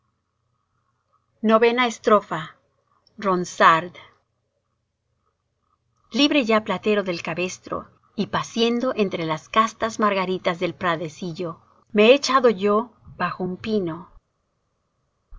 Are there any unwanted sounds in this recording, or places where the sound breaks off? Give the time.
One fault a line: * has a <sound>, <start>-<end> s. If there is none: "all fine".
all fine